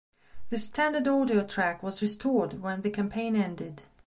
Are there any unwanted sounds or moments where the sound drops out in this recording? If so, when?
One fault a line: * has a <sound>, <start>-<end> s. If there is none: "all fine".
all fine